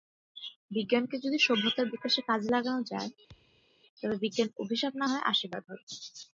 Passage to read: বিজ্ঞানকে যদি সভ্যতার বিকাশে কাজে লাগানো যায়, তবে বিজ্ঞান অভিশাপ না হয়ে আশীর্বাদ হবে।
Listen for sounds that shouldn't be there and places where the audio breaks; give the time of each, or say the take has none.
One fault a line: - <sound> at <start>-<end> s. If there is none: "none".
- thud at 3.3-3.7 s